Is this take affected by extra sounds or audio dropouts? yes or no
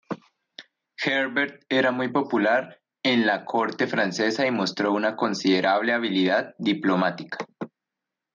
no